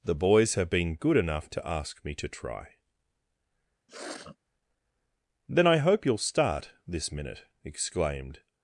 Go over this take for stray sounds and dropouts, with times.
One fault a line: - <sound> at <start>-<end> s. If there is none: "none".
- sniff at 3.9-4.4 s